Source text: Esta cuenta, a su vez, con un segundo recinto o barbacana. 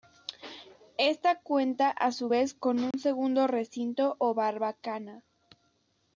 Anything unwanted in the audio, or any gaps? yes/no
yes